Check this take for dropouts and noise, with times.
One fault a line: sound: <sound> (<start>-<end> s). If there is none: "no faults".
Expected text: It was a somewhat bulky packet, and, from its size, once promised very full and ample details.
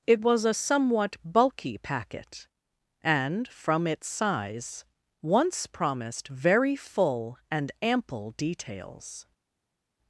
no faults